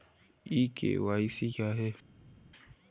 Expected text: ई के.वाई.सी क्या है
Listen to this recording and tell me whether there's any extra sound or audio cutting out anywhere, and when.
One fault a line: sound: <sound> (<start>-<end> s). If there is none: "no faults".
no faults